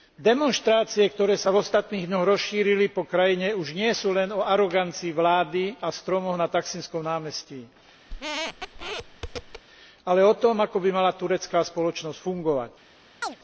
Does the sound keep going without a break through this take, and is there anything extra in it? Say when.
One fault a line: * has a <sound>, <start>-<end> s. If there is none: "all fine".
* has a squeak, 8.1-9.6 s
* has a chirp, 13.2-13.4 s